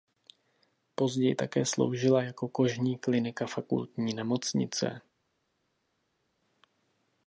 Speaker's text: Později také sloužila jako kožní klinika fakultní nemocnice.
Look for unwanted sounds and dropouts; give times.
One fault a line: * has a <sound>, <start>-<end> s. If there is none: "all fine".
all fine